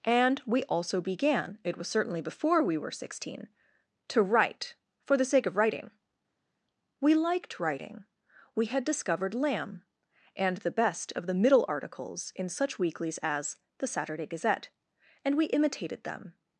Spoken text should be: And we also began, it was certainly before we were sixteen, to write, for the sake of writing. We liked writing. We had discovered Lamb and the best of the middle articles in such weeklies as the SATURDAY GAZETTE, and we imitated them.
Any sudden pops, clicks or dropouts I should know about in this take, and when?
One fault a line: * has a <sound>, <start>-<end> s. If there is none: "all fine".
all fine